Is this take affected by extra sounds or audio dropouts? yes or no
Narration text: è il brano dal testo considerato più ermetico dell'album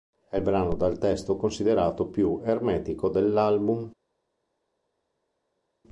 no